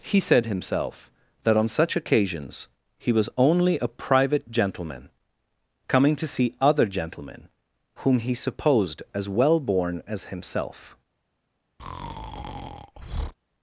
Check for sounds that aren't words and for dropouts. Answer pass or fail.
fail